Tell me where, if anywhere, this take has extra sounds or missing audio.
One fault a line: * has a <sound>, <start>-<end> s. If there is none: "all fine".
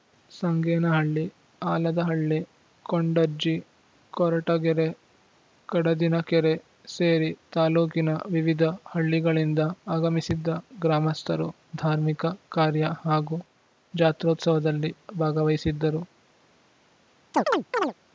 * has a chirp, 17.3-17.9 s